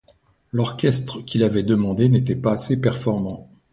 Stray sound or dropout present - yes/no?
no